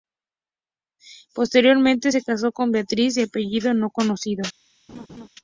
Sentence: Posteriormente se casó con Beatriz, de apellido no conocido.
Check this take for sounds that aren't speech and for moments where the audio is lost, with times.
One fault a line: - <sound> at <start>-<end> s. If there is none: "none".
- laugh at 4.9-5.3 s